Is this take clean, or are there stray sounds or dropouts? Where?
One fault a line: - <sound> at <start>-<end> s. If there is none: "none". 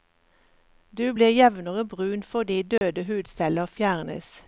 - dropout at 2.8-2.8 s